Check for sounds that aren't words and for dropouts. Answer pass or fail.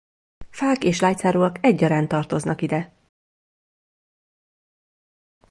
pass